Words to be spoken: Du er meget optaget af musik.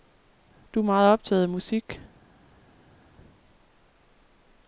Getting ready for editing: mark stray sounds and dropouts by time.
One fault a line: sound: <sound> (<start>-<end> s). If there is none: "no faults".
no faults